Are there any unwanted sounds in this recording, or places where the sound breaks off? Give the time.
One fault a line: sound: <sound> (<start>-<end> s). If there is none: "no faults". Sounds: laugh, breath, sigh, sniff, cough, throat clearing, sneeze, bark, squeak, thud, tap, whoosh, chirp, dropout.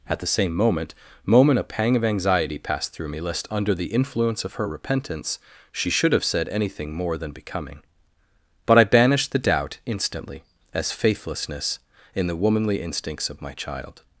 no faults